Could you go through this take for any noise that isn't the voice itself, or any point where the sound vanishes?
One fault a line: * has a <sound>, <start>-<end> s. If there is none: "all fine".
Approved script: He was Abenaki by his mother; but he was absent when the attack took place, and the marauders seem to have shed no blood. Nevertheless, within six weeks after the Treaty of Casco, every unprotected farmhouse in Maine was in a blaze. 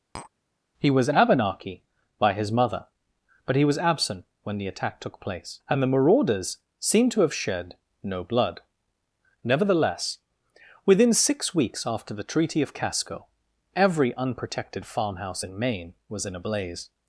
* has a tap, 0.1-0.3 s